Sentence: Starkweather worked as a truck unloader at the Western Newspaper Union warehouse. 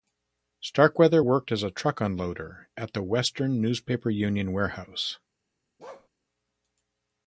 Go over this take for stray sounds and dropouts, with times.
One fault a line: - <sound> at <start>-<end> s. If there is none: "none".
- bark at 5.8-6.1 s